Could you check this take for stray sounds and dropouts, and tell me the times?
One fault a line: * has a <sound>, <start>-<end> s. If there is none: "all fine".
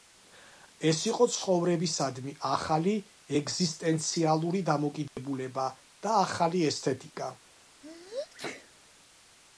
* has a dropout, 5.1-5.2 s
* has a sneeze, 7.8-8.7 s